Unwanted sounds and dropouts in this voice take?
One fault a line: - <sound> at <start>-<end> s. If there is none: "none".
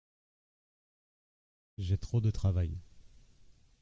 none